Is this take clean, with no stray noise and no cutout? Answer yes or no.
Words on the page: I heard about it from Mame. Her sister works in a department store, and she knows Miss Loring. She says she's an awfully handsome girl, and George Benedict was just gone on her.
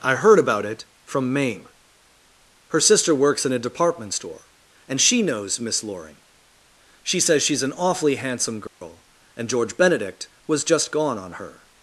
no